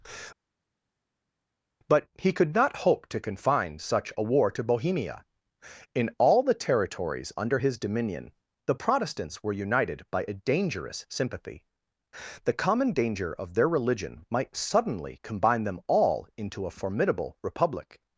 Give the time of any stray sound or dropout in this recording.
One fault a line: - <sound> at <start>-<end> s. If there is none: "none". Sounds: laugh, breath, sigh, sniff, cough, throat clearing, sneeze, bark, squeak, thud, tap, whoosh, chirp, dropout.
none